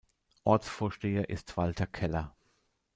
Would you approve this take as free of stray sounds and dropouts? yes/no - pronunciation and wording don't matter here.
yes